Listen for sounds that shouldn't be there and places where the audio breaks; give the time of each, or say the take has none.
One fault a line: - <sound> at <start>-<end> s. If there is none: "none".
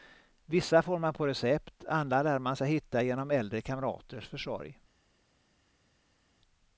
none